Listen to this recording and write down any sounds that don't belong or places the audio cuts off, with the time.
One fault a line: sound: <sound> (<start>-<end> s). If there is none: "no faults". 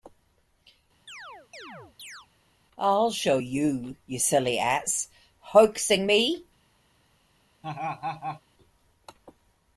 sound: chirp (1.1-2.3 s)
sound: laugh (7.6-8.4 s)